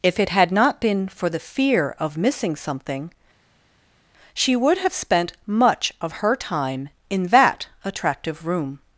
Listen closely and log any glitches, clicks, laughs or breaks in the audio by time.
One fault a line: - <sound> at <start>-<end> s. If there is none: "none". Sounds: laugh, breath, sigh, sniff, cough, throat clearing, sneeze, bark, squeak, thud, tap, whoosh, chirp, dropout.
none